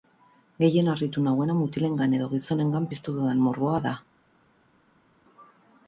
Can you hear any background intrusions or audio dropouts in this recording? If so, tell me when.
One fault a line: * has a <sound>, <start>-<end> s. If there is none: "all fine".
all fine